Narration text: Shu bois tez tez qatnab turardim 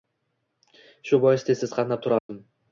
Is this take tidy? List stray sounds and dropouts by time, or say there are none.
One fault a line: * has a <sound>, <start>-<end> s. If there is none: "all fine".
* has a dropout, 2.2-2.3 s